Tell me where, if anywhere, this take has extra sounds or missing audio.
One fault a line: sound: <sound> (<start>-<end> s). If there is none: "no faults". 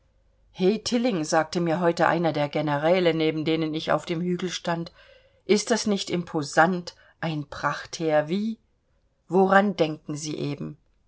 no faults